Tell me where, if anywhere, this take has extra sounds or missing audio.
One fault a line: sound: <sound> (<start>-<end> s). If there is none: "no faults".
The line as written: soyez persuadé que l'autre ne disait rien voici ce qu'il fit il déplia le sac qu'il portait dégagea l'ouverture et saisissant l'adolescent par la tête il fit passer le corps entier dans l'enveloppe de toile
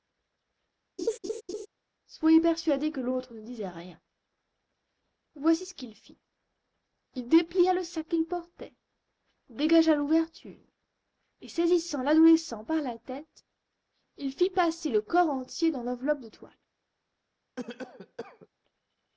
sound: laugh (1.0-1.7 s)
sound: cough (17.6-18.5 s)